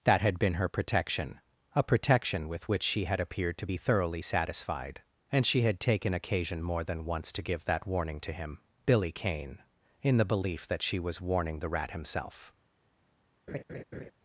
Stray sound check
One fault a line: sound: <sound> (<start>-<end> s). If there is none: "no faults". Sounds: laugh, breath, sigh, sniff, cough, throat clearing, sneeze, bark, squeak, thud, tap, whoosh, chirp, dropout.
sound: laugh (13.5-14.1 s)